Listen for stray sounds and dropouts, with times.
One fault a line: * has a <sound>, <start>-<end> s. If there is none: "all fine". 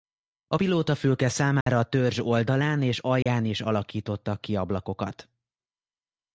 * has a dropout, 1.6-1.7 s
* has a dropout, 3.2-3.3 s